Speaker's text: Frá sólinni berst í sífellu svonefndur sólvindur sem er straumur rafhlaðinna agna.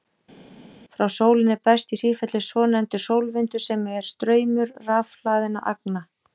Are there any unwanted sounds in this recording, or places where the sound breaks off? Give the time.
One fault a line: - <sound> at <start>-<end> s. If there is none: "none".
none